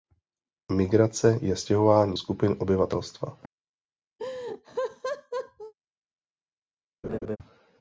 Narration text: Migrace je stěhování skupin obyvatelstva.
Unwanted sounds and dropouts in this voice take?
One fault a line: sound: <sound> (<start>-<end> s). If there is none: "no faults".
sound: laugh (4.2-5.7 s)
sound: laugh (7.0-7.4 s)